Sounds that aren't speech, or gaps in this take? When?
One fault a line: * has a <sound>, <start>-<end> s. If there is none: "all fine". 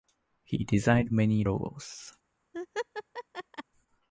* has a laugh, 2.5-3.6 s